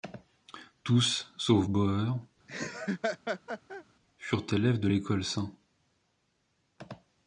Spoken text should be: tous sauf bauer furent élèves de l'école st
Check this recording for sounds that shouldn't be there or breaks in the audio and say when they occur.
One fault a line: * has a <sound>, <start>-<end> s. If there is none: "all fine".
* has a laugh, 2.5-3.8 s